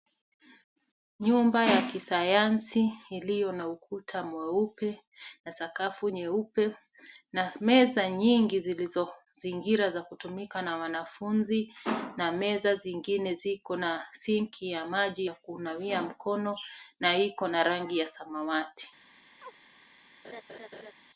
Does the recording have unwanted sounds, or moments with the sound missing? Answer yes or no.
yes